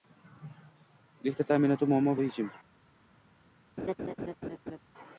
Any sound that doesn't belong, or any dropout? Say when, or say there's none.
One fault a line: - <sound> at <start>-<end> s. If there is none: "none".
- laugh at 3.8-4.8 s